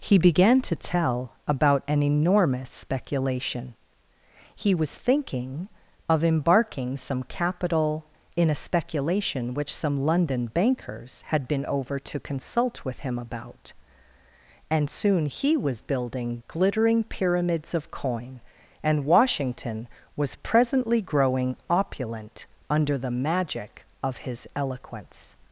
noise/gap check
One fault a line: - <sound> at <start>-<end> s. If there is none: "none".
none